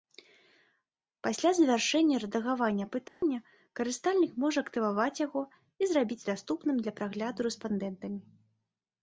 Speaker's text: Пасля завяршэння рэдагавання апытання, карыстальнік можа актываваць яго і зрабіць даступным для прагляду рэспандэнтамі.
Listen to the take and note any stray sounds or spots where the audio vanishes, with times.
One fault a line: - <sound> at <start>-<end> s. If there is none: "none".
- dropout at 3.1-3.2 s